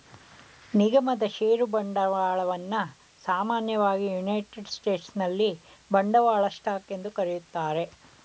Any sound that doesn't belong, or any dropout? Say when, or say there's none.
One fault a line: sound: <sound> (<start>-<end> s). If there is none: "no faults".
no faults